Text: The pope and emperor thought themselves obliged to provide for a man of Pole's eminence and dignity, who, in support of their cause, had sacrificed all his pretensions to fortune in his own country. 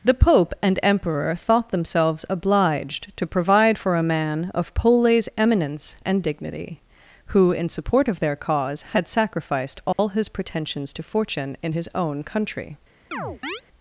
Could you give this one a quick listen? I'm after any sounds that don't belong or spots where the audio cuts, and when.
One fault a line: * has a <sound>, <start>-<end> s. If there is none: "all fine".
* has a dropout, 9.9-10.0 s
* has a chirp, 13.1-13.6 s